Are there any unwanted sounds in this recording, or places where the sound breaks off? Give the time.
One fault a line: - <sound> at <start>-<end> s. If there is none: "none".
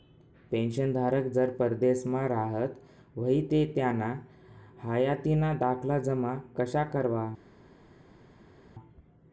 none